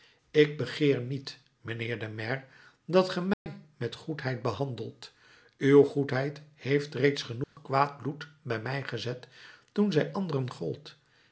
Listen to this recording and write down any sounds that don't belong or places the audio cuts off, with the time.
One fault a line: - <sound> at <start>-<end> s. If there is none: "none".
- dropout at 3.3-3.5 s
- dropout at 7.4-7.6 s